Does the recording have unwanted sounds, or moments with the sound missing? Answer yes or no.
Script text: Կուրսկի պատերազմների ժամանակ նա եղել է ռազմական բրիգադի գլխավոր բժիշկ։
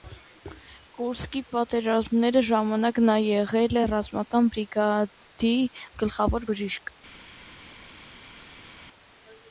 no